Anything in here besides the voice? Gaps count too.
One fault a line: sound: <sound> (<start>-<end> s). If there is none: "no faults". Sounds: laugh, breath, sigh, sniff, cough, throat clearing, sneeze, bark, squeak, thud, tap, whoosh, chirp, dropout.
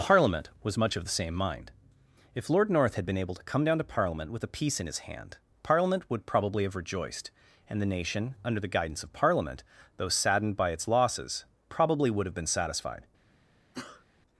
sound: sneeze (13.7-14.1 s)